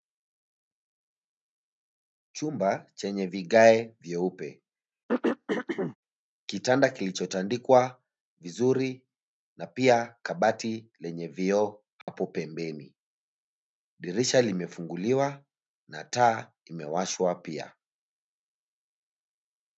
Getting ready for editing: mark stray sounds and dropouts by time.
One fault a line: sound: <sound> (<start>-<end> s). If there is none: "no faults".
sound: throat clearing (5.1-6.0 s)
sound: dropout (12.0-12.1 s)